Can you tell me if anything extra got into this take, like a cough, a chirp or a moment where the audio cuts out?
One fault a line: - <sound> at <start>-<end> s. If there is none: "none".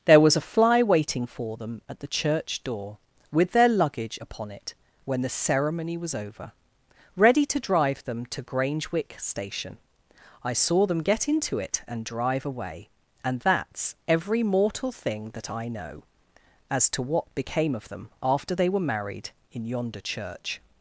none